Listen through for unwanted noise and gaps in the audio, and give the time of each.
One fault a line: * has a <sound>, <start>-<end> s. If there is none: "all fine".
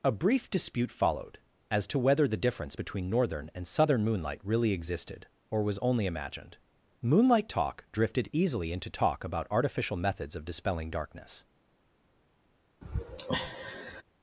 * has a sigh, 12.8-14.0 s